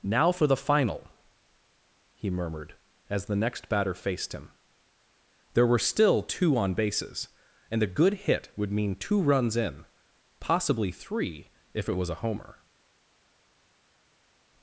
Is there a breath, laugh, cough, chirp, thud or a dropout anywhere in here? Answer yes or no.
no